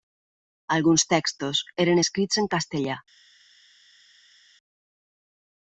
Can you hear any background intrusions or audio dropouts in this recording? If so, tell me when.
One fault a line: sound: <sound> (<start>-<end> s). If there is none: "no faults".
no faults